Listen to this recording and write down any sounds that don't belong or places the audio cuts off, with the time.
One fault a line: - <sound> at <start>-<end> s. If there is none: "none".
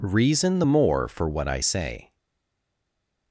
none